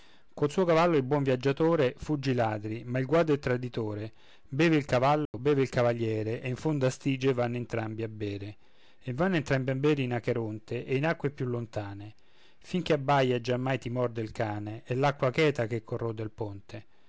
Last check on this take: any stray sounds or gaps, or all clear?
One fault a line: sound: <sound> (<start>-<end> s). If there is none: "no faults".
sound: dropout (5.3-5.3 s)